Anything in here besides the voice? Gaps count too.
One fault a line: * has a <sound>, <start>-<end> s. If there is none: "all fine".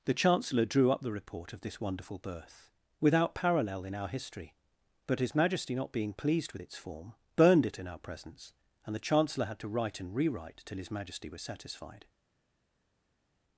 all fine